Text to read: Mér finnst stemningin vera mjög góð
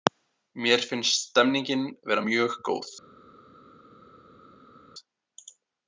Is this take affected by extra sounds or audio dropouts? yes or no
no